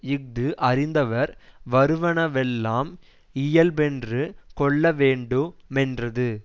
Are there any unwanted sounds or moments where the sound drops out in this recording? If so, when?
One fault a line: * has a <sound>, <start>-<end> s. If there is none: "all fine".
all fine